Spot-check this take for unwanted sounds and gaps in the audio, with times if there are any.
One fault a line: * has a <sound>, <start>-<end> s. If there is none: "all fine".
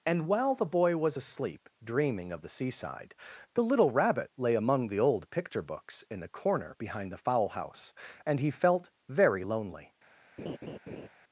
* has a laugh, 10.4-11.1 s